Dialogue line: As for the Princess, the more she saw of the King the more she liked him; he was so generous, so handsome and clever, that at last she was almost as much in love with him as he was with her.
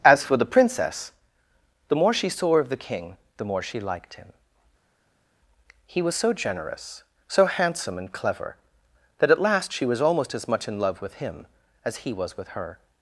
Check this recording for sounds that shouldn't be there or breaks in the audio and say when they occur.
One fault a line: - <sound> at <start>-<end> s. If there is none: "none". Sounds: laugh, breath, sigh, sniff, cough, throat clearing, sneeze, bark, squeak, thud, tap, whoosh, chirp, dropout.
none